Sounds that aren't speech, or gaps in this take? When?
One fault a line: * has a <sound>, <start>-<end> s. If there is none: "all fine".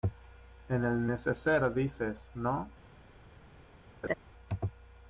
* has a laugh, 4.0-4.1 s